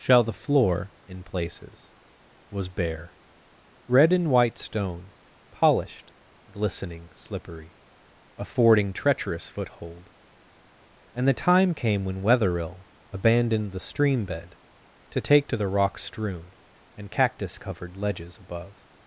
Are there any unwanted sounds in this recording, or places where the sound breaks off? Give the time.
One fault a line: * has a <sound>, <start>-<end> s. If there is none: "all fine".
all fine